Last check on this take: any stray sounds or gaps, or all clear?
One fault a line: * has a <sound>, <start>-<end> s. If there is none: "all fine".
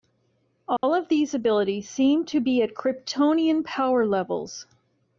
* has a dropout, 0.8-0.8 s